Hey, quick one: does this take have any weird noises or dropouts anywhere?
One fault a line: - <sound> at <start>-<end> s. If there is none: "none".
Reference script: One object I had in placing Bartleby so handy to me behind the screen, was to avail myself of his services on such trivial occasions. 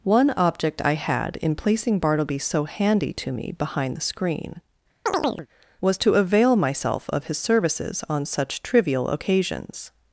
- chirp at 5.1-5.5 s